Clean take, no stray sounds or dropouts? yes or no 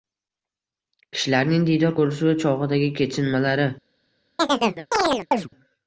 no